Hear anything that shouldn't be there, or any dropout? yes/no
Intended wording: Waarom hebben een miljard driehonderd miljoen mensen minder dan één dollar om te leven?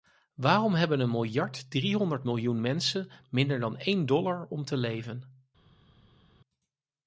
no